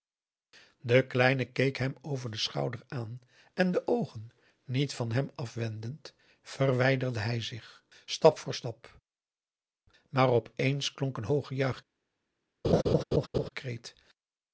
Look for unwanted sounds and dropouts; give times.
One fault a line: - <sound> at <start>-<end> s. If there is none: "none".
- laugh at 12.6-13.5 s